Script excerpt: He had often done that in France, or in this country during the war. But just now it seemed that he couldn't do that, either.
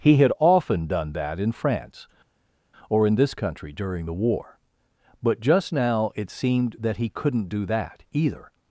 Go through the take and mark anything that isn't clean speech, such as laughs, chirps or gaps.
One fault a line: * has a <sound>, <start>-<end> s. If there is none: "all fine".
all fine